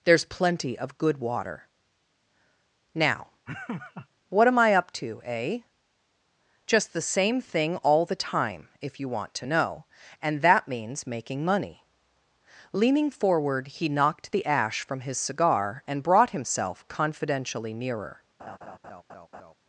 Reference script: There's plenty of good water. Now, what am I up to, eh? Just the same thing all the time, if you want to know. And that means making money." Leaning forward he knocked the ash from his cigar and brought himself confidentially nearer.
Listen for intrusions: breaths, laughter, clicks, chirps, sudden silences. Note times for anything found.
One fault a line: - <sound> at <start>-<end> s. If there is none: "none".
- laugh at 3.5-4.1 s
- laugh at 18.4-19.5 s